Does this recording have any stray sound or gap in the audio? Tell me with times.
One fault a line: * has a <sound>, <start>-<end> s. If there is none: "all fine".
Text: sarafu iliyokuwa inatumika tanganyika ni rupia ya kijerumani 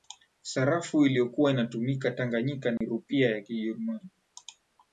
* has a dropout, 2.8-2.8 s